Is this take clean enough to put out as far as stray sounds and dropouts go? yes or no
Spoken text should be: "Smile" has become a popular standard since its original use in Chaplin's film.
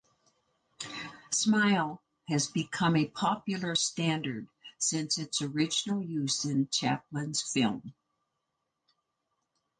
yes